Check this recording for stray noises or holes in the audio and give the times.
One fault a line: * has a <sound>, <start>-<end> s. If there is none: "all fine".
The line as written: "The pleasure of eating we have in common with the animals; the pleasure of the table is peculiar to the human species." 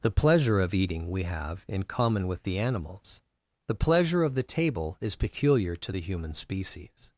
all fine